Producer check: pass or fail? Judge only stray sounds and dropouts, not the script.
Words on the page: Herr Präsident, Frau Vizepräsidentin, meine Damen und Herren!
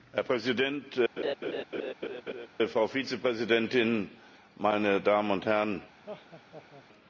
fail